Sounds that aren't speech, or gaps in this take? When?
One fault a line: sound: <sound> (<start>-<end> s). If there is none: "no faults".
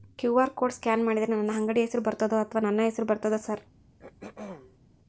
sound: throat clearing (4.0-4.8 s)